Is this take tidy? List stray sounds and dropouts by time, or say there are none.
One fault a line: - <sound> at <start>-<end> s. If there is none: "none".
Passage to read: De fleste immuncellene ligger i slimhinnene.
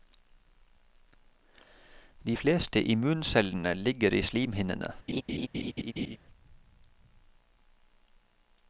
- laugh at 5.1-6.2 s